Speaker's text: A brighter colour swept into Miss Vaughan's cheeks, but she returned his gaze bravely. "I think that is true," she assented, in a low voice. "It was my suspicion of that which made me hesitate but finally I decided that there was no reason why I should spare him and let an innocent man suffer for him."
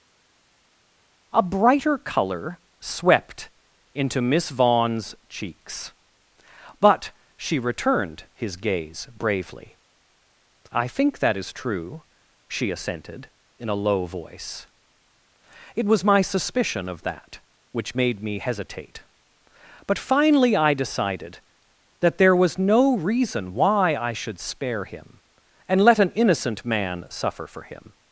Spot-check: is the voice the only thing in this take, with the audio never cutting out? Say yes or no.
yes